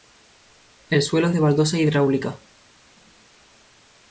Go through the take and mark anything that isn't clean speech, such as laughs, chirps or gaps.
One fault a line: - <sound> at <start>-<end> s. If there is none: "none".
none